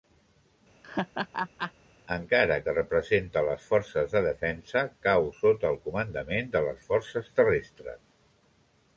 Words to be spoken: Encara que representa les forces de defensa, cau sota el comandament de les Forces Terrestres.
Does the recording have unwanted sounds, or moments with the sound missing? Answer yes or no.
yes